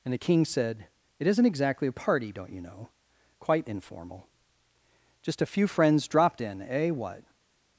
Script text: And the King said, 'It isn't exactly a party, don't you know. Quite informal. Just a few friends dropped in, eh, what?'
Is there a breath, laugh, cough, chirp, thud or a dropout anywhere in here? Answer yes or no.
no